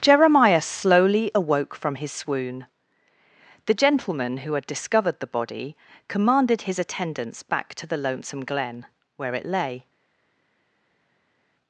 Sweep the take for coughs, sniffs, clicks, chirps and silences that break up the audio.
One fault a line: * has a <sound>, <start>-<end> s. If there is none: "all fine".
all fine